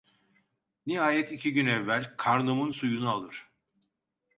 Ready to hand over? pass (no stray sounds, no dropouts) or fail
pass